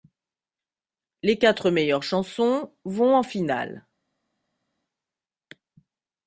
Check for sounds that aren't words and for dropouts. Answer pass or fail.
pass